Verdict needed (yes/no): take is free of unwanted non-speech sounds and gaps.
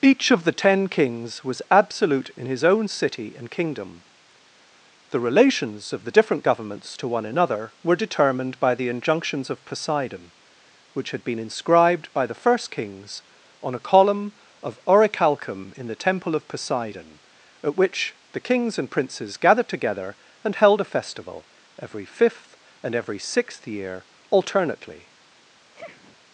no